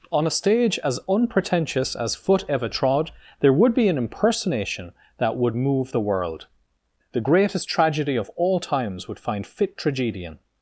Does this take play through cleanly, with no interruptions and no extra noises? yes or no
yes